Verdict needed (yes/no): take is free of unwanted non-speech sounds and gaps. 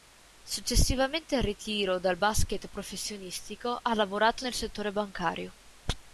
yes